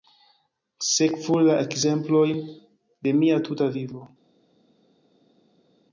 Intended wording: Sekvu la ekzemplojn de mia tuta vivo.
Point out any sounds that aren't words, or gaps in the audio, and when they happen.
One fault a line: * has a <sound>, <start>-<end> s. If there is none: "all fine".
all fine